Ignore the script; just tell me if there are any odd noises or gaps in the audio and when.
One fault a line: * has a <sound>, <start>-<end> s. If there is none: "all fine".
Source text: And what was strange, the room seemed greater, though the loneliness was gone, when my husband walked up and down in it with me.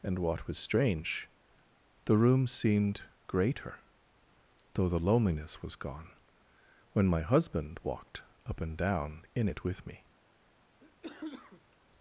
* has a cough, 10.8-11.8 s